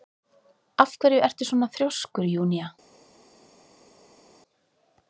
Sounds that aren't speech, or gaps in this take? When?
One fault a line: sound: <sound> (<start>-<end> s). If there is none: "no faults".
no faults